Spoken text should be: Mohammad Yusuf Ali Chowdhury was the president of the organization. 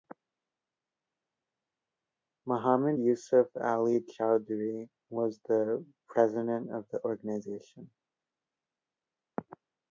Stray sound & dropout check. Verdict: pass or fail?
pass